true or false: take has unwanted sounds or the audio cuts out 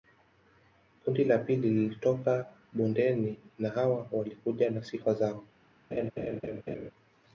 true